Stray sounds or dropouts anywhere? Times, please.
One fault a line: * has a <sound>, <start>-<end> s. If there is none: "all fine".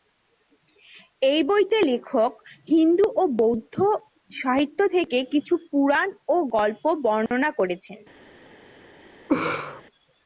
* has a dropout, 7.3-7.3 s
* has a laugh, 9.3-9.8 s